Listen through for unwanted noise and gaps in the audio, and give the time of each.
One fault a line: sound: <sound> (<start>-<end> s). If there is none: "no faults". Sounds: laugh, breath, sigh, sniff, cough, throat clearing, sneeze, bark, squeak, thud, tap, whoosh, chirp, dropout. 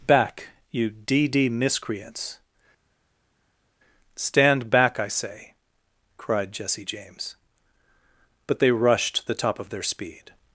no faults